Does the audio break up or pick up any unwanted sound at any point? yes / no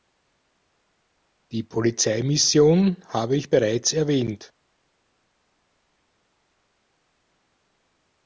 no